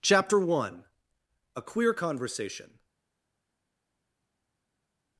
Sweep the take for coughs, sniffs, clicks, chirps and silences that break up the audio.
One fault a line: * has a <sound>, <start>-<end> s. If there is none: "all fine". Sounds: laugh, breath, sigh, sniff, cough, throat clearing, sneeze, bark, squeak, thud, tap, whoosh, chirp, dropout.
all fine